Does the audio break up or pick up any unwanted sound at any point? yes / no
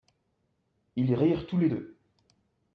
no